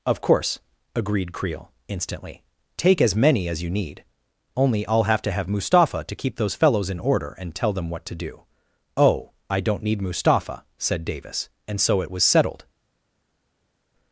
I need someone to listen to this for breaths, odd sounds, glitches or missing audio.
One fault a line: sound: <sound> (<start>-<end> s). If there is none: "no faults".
no faults